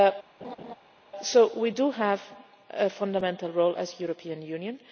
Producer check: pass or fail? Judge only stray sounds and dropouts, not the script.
fail